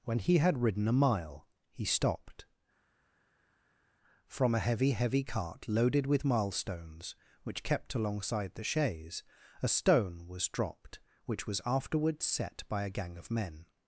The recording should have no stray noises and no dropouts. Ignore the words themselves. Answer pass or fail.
pass